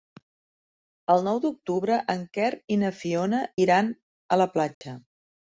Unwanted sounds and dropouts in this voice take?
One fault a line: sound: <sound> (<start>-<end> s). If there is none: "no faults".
sound: dropout (4.7-4.8 s)